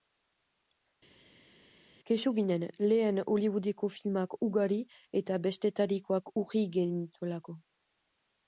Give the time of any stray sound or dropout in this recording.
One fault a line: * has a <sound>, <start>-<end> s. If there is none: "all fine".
all fine